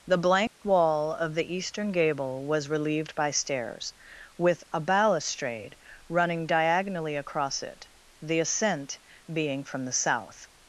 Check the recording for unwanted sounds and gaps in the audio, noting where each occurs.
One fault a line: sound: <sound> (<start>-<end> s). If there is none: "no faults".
sound: dropout (0.5-0.6 s)